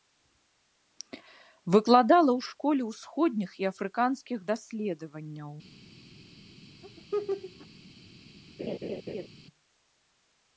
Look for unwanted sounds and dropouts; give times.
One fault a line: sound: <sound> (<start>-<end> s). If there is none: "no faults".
sound: laugh (6.8-7.7 s)
sound: laugh (8.6-9.3 s)